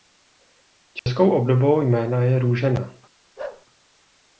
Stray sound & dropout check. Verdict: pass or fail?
fail